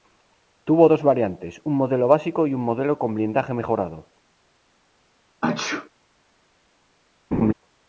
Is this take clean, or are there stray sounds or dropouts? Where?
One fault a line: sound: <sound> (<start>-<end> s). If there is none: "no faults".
sound: sneeze (5.4-5.9 s)
sound: laugh (7.3-7.5 s)